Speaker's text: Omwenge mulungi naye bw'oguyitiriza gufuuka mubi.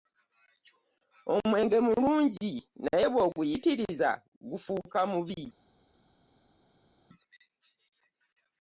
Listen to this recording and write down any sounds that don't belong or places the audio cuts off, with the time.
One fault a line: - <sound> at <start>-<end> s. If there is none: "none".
none